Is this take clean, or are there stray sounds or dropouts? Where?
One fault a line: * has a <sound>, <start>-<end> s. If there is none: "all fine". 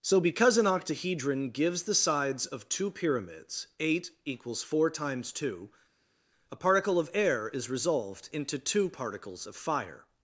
all fine